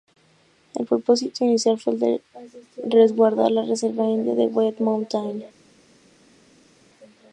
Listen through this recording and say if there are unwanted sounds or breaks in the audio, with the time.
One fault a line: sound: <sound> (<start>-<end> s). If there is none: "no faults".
no faults